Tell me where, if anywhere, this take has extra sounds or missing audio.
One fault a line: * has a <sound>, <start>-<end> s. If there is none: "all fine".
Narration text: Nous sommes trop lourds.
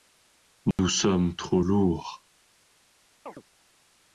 * has a dropout, 0.7-0.8 s
* has a chirp, 3.3-3.4 s